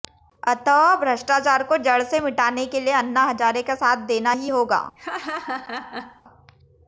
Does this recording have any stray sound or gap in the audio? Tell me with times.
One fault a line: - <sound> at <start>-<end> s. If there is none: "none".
- laugh at 5.0-6.2 s